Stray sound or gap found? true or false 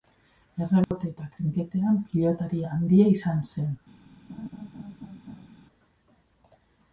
true